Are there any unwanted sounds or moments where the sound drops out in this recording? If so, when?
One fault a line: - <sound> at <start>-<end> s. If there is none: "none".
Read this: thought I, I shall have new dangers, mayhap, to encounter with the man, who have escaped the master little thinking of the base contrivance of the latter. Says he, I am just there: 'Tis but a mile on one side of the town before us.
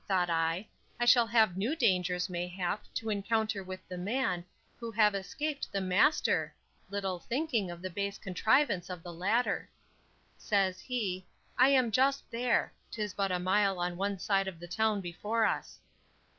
none